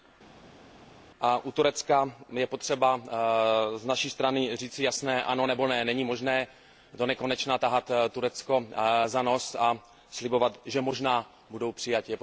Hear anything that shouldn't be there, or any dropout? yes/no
no